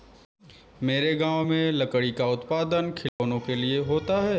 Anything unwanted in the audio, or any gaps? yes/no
yes